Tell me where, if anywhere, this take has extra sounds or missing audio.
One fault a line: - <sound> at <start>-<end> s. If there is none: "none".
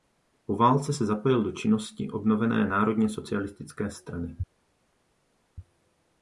none